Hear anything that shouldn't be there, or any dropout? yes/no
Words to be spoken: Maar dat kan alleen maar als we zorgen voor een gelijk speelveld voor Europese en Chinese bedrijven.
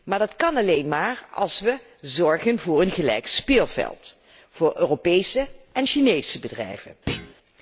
yes